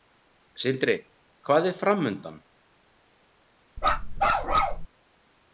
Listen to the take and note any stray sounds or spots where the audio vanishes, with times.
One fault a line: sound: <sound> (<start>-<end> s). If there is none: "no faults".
sound: bark (3.8-4.9 s)